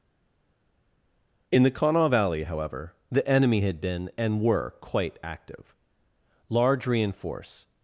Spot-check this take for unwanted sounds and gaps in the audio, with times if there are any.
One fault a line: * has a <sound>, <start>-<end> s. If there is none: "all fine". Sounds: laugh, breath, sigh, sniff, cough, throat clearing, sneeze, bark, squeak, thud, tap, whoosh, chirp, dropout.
all fine